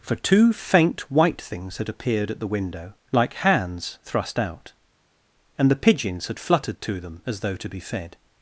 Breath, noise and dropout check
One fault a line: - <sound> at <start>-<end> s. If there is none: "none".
none